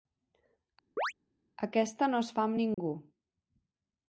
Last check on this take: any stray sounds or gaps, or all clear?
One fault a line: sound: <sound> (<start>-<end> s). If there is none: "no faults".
sound: chirp (1.0-1.1 s)
sound: dropout (2.7-2.8 s)